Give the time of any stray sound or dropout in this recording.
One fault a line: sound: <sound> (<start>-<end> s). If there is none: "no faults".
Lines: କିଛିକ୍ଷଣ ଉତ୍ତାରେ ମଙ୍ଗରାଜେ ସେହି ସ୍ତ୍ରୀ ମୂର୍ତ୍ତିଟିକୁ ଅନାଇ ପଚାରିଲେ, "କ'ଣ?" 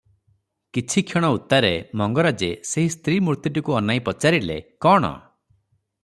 no faults